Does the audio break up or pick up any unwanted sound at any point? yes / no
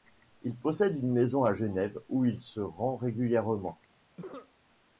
yes